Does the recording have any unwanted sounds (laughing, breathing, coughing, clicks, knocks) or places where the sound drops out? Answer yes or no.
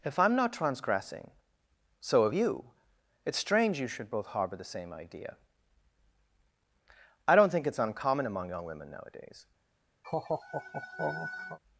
yes